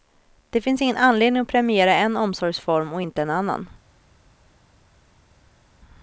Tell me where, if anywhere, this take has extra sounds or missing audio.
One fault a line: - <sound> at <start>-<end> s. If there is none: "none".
none